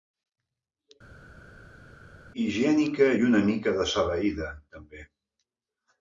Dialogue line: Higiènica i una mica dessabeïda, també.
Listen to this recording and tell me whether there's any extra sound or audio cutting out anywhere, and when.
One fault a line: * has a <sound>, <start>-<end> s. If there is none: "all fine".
all fine